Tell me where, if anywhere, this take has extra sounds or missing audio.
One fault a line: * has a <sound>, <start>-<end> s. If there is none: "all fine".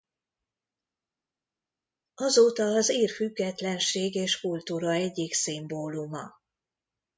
all fine